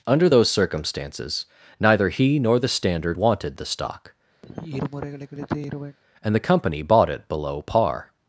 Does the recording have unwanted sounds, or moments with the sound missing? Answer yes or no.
yes